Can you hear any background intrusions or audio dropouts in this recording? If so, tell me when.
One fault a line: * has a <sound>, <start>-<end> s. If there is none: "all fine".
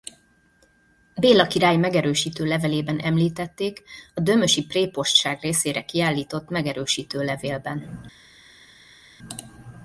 all fine